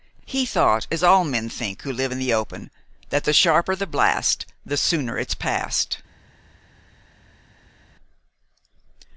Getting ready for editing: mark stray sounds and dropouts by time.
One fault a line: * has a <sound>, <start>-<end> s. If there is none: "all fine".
all fine